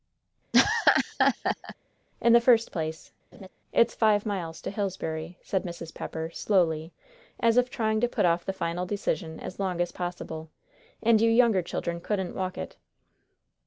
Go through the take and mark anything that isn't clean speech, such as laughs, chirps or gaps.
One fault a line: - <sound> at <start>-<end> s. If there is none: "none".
- laugh at 0.5-1.8 s
- laugh at 3.3-3.5 s